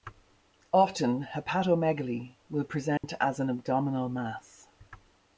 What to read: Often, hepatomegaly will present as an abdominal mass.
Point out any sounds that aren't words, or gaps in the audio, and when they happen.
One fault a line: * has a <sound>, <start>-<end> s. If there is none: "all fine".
* has a dropout, 3.0-3.0 s